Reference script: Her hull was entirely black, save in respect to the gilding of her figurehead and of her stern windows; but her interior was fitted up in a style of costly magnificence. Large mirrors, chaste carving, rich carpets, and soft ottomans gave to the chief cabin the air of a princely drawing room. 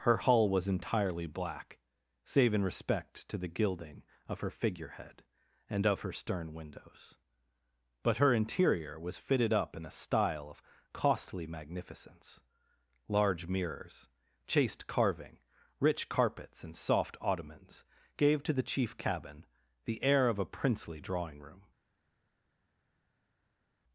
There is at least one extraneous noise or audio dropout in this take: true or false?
false